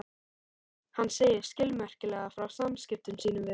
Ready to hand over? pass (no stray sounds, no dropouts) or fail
pass